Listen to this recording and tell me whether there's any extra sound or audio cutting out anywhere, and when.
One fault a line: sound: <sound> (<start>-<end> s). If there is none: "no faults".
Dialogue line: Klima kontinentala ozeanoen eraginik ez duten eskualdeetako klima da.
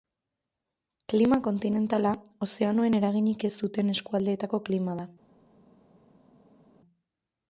no faults